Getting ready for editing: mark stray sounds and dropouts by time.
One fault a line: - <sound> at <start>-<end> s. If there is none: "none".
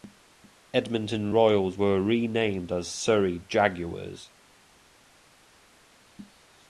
none